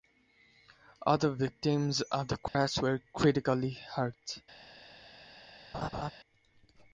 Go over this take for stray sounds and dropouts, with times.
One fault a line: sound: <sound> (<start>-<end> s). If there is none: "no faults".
sound: dropout (2.5-2.5 s)
sound: laugh (5.7-6.1 s)